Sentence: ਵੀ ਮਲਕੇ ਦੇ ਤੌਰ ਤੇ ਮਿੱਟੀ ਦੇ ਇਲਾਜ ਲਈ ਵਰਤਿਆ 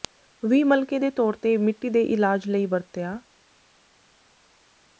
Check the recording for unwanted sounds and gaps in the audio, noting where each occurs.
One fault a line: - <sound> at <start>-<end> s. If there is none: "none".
none